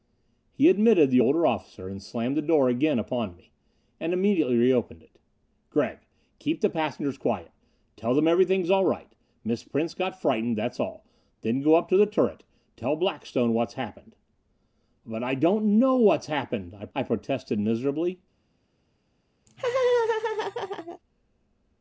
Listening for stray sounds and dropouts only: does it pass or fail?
fail